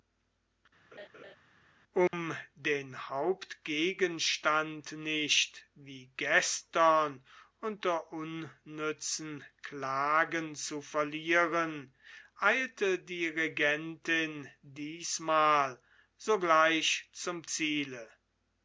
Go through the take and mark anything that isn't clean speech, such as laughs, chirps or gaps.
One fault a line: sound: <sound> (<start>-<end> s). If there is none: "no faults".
sound: laugh (0.9-1.4 s)
sound: dropout (2.1-2.1 s)